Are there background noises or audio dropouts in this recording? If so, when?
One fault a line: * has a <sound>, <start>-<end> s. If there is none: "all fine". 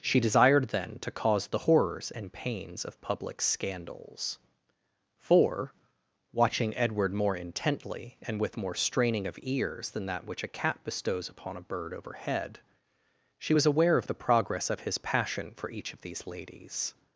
all fine